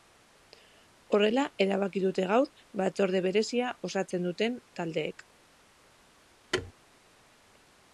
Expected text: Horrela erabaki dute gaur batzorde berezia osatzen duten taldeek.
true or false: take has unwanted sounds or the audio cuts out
true